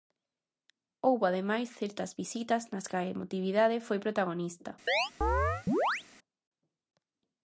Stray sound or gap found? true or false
true